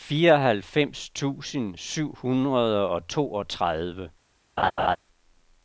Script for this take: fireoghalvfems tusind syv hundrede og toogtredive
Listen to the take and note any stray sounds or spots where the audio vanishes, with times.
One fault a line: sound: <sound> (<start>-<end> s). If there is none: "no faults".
sound: laugh (4.6-5.0 s)